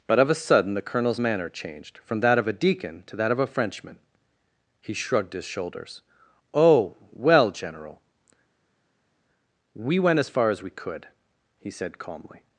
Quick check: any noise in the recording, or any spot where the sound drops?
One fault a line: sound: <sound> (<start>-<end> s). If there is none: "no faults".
no faults